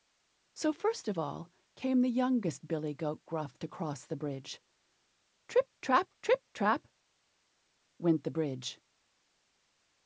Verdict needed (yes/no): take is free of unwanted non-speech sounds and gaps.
yes